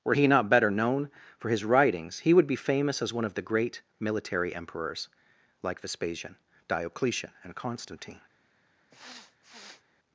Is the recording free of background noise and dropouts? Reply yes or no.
no